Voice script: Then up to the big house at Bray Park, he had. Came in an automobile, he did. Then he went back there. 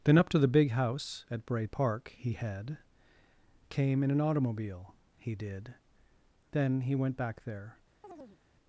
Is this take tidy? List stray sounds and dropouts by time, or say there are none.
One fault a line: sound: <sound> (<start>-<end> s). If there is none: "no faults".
sound: chirp (8.0-8.4 s)